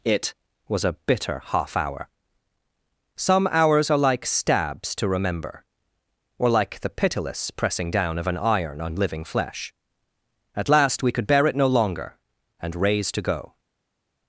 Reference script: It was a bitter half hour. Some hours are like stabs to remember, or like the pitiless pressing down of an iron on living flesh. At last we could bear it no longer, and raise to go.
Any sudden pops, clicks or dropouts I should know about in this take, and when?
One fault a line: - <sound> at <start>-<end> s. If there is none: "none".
none